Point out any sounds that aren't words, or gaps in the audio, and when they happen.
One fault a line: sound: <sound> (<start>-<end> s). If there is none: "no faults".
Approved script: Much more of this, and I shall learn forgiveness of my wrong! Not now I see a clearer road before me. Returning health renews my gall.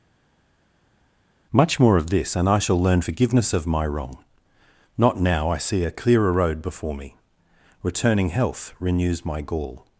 no faults